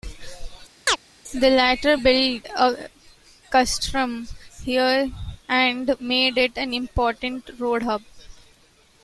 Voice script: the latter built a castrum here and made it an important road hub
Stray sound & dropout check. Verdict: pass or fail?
fail